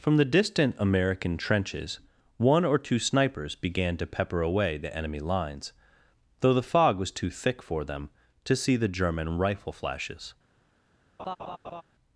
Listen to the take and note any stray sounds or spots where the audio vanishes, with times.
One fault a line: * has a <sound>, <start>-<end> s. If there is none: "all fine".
* has a laugh, 11.2-11.8 s